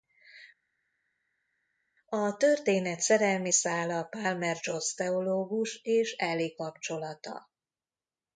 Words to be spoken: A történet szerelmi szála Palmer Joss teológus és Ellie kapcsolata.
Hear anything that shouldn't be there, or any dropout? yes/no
no